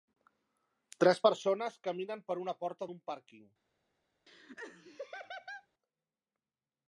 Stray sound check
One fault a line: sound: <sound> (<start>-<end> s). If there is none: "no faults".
sound: laugh (4.3-5.7 s)